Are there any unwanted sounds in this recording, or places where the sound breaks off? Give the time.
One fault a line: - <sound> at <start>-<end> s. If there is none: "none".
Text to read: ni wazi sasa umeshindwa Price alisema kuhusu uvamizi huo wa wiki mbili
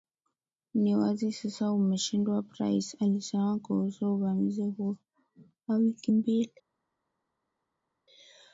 none